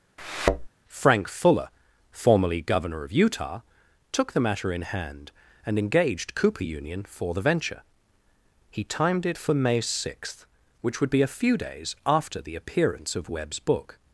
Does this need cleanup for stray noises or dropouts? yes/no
yes